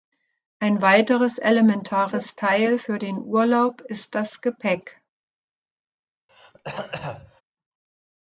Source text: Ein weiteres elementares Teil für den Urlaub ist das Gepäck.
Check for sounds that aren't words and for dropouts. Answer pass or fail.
fail